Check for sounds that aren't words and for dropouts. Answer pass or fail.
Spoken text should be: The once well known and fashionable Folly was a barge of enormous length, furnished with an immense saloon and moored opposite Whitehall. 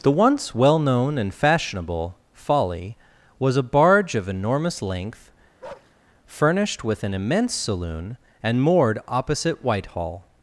fail